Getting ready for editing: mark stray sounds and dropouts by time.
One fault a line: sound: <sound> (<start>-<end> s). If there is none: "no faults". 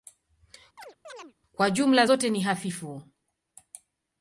sound: chirp (0.8-1.3 s)